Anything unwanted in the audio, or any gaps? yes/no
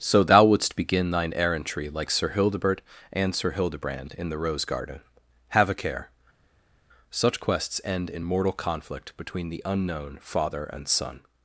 no